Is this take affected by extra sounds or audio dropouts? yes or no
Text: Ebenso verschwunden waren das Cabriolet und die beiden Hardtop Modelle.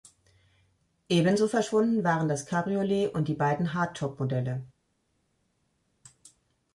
no